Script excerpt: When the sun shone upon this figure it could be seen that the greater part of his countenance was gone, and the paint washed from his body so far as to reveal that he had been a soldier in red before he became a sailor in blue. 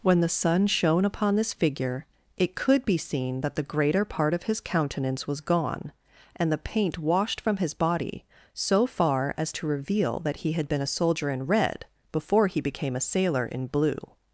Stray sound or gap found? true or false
false